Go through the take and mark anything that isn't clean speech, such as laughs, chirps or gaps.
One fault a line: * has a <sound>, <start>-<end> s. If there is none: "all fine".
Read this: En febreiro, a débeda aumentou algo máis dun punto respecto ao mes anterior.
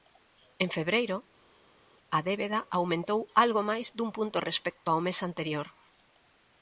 all fine